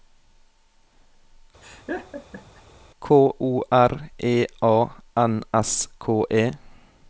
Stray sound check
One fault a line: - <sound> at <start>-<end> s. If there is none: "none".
- laugh at 1.6-2.6 s